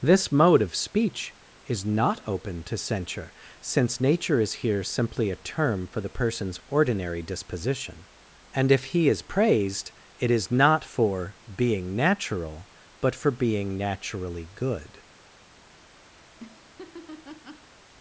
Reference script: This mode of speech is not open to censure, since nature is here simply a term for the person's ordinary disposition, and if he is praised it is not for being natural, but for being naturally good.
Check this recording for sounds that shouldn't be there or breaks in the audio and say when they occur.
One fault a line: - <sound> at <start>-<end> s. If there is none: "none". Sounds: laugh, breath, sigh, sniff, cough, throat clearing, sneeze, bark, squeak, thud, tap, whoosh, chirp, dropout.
- laugh at 16.1-17.7 s